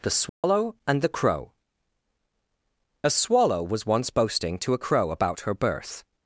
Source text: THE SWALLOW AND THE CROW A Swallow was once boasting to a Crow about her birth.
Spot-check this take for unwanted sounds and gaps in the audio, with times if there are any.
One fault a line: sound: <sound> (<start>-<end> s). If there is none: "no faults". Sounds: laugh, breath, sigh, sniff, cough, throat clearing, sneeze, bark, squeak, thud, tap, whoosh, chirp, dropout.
sound: dropout (0.3-0.4 s)